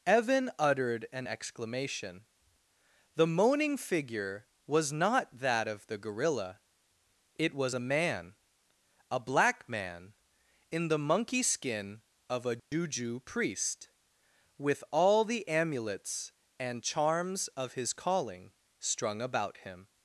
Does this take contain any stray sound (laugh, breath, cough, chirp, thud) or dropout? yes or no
yes